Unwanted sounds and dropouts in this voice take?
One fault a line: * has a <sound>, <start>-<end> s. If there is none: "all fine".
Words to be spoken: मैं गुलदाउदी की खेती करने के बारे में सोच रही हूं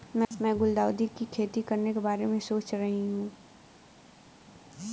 all fine